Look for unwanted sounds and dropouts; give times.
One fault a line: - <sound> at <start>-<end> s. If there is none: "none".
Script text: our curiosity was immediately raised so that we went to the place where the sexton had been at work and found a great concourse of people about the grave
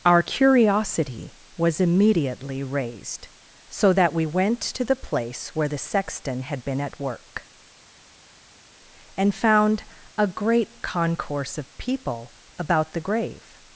none